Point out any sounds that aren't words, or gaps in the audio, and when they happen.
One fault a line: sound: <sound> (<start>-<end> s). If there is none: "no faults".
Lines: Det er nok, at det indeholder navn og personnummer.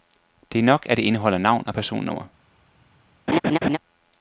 sound: laugh (3.3-3.8 s)